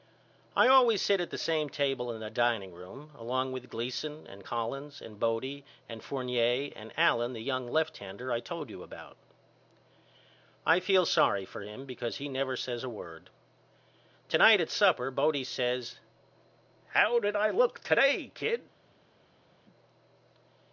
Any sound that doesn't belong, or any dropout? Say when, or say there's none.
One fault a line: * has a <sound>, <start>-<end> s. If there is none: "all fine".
all fine